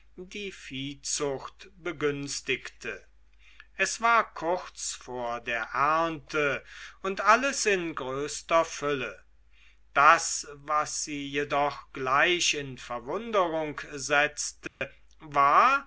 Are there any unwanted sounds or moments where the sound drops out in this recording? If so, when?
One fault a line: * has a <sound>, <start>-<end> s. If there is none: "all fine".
* has a dropout, 14.7-14.8 s